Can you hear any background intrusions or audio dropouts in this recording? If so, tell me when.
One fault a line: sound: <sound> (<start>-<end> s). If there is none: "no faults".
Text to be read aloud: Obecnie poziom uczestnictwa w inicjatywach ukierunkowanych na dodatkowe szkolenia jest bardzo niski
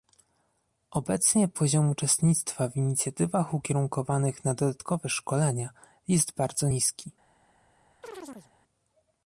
sound: chirp (8.0-8.5 s)